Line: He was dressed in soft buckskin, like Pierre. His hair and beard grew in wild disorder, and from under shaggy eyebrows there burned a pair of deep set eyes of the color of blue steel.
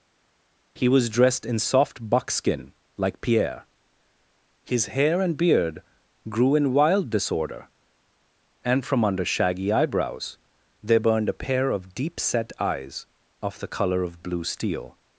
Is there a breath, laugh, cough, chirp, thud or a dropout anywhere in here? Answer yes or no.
no